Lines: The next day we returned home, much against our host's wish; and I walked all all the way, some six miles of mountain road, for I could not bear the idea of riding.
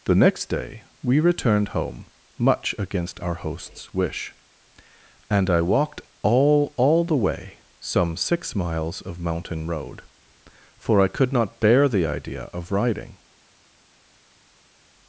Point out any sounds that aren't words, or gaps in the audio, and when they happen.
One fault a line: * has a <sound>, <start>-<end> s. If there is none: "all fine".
all fine